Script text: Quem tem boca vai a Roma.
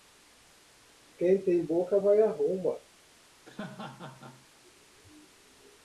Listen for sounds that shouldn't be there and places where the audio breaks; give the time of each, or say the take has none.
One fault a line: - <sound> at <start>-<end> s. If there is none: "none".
- laugh at 3.5-4.5 s